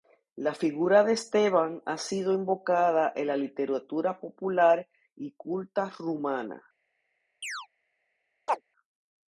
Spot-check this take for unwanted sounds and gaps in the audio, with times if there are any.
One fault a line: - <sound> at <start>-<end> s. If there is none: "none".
- chirp at 7.4-7.7 s
- chirp at 8.5-8.6 s